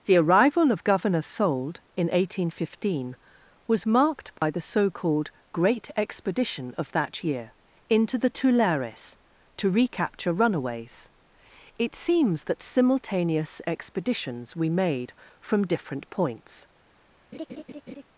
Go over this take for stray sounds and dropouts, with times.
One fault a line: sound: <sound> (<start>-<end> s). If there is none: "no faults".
sound: dropout (4.4-4.4 s)
sound: laugh (17.3-18.0 s)